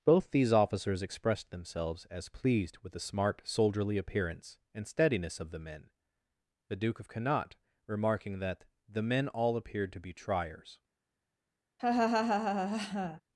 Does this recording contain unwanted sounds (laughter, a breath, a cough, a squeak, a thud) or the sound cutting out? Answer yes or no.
yes